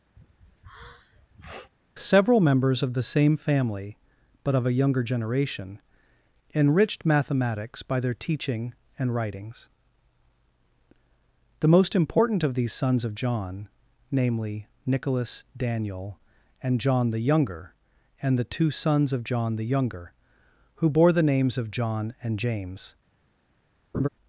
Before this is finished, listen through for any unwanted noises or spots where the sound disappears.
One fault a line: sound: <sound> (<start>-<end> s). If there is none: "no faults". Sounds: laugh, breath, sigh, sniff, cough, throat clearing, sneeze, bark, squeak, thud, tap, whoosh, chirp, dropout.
sound: sneeze (0.2-1.7 s)
sound: laugh (23.9-24.1 s)